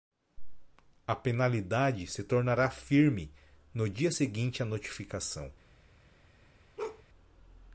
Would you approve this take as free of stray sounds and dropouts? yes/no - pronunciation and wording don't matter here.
no